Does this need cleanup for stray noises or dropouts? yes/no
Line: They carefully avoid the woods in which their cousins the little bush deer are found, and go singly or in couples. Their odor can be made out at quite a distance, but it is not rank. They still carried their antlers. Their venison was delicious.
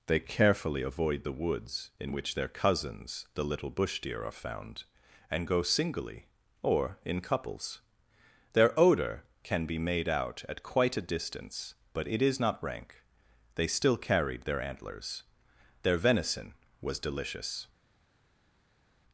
no